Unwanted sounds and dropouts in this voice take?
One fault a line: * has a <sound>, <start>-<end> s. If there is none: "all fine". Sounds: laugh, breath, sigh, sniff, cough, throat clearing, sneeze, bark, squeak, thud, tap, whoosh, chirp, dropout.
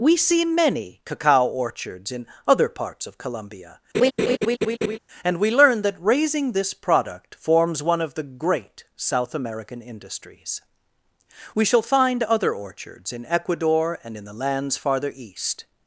* has a laugh, 3.9-5.0 s